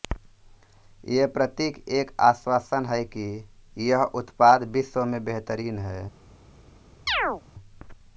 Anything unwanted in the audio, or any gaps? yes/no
yes